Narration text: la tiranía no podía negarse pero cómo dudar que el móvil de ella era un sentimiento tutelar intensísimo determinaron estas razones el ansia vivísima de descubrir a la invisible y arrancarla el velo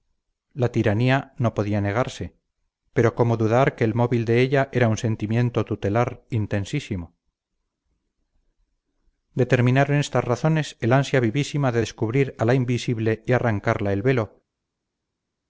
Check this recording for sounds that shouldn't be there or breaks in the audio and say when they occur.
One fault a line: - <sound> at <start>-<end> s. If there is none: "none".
none